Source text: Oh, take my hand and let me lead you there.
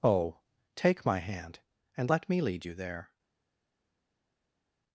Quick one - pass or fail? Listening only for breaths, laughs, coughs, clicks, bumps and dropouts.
pass